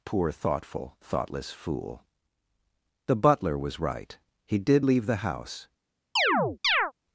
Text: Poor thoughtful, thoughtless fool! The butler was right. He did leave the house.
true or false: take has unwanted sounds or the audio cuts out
true